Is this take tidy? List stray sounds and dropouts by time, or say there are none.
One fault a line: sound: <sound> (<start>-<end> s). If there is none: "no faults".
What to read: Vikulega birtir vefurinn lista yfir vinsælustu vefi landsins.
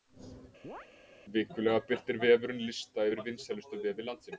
sound: chirp (0.6-0.9 s)